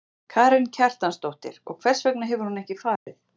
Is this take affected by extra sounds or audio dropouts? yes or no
yes